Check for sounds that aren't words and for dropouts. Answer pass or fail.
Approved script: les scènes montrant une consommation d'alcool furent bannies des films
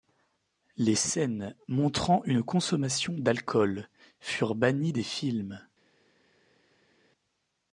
pass